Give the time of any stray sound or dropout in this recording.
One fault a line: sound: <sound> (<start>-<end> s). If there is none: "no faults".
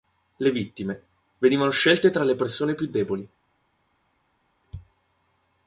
no faults